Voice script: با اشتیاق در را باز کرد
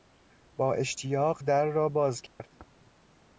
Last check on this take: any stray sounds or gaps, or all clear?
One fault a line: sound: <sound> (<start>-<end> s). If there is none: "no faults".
sound: dropout (2.3-2.4 s)